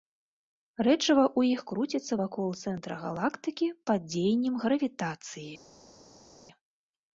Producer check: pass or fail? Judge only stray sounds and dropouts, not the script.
pass